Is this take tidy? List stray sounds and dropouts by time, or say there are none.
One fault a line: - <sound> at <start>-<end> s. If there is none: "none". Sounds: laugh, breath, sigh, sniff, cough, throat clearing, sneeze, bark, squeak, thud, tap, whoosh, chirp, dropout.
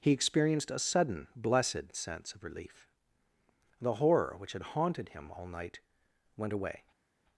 none